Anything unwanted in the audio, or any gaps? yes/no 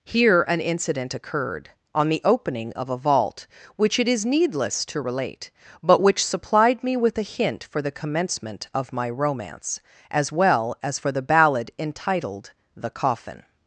no